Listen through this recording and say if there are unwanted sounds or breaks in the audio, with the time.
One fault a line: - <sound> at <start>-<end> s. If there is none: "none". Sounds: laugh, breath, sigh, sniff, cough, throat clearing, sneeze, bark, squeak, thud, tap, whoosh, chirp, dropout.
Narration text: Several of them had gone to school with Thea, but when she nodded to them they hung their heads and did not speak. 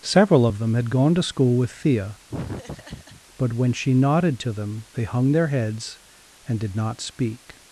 - laugh at 2.3-3.2 s